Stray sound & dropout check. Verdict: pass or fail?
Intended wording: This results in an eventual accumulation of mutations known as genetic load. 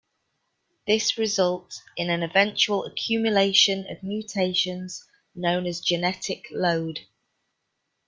pass